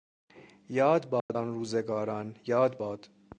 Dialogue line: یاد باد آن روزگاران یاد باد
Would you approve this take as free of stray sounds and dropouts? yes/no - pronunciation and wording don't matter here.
no